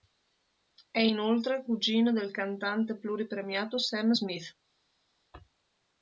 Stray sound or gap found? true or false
false